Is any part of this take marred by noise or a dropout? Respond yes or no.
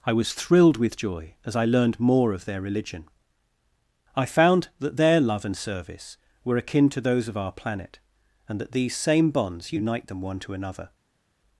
no